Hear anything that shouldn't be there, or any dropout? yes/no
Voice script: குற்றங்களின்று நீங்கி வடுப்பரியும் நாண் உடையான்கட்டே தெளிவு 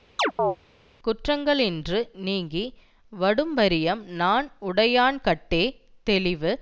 yes